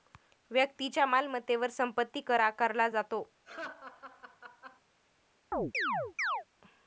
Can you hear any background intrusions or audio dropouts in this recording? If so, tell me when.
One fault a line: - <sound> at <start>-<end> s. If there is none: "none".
- laugh at 3.4-4.8 s
- chirp at 5.5-6.4 s